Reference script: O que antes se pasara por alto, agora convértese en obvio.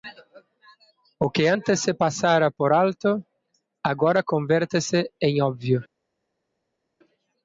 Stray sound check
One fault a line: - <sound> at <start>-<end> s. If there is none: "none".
none